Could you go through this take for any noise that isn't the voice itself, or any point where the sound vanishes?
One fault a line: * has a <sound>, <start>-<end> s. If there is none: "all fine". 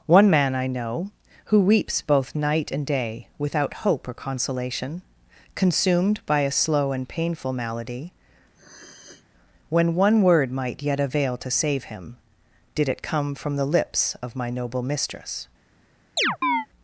* has a sniff, 8.5-9.3 s
* has a chirp, 16.2-16.7 s